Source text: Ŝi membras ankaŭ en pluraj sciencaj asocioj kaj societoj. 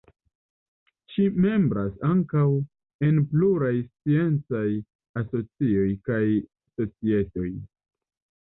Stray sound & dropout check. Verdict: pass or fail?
pass